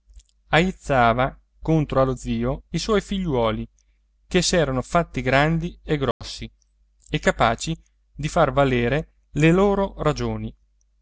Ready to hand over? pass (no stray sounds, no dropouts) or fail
fail